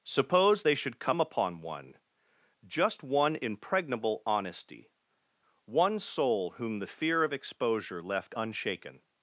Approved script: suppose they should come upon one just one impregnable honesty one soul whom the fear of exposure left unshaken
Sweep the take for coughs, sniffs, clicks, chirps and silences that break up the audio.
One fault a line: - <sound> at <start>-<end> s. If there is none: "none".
none